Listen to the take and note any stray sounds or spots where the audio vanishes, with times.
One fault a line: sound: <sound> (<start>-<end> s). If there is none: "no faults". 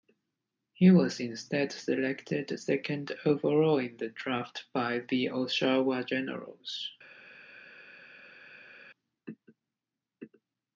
no faults